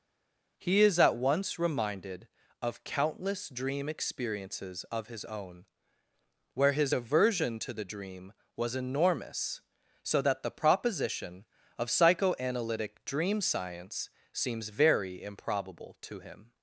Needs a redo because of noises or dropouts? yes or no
no